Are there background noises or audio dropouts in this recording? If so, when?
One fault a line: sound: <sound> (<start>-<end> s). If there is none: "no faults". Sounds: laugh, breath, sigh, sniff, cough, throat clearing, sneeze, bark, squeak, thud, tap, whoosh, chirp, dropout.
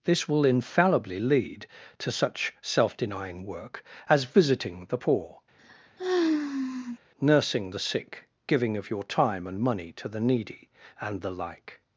sound: sigh (5.6-7.0 s)